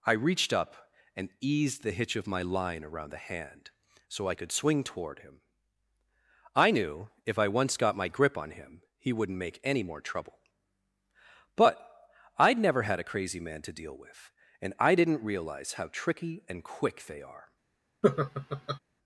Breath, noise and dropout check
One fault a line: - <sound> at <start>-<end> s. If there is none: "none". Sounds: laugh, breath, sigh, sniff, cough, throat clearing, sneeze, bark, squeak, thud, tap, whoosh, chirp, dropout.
- laugh at 18.0-18.8 s